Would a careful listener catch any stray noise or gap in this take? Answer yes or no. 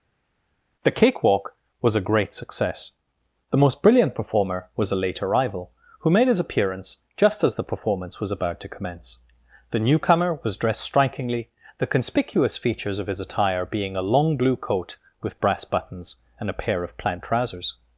no